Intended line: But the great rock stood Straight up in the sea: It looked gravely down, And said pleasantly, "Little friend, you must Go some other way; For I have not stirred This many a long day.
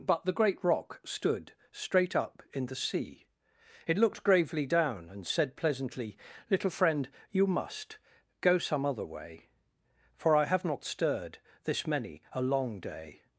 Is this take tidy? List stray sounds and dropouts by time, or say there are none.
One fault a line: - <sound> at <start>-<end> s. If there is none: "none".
none